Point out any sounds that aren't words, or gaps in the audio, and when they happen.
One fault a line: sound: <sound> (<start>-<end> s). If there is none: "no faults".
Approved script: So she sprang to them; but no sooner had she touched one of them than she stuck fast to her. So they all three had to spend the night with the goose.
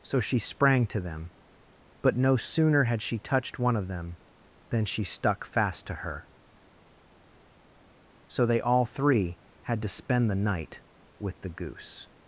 no faults